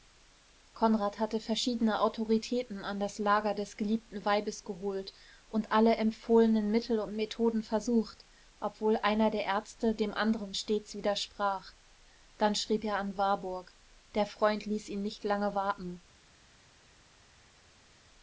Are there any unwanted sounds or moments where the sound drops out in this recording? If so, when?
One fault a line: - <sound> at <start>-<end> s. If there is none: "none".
none